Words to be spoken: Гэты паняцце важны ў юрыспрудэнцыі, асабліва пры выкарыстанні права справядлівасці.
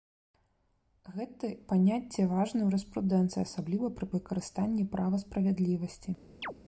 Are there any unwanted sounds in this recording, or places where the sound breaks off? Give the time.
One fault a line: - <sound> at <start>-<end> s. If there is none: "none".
- chirp at 6.4-6.5 s